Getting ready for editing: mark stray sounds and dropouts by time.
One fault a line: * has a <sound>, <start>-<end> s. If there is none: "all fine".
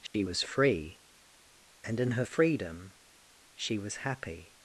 * has a dropout, 0.1-0.1 s